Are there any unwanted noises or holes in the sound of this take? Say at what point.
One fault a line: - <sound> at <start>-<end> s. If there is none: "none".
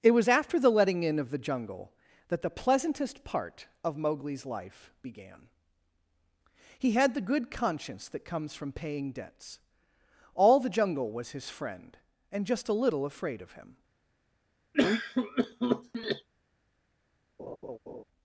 - cough at 14.7-16.3 s
- laugh at 17.4-18.0 s